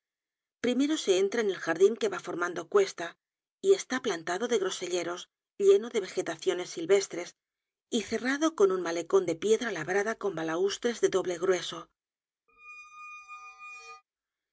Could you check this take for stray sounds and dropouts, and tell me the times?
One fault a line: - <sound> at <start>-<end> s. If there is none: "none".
- squeak at 12.5-14.0 s